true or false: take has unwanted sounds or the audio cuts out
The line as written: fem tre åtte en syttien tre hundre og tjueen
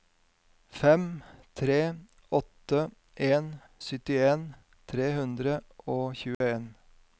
true